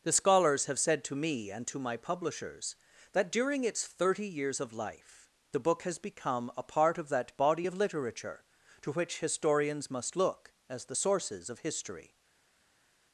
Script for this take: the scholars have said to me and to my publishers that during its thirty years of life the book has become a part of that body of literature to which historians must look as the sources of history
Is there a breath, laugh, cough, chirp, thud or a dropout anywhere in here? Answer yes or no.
no